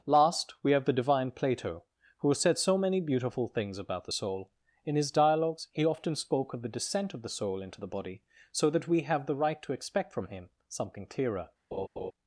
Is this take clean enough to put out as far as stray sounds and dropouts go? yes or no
no